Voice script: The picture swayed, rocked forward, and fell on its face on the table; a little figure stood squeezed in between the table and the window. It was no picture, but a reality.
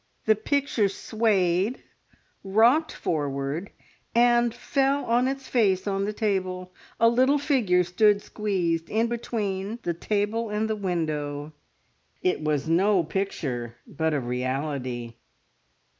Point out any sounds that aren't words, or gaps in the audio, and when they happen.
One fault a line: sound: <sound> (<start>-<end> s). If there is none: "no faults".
no faults